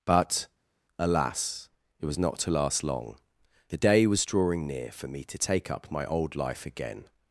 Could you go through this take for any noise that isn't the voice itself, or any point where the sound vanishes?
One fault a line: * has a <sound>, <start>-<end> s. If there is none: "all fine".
all fine